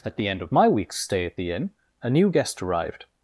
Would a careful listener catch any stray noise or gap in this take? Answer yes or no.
no